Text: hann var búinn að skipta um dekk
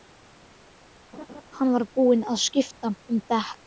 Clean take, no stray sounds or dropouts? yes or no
no